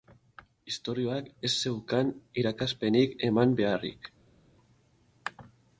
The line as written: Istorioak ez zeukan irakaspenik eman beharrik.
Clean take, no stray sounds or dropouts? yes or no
yes